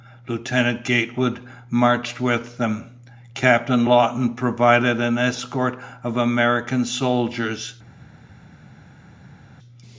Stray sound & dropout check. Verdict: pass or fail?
pass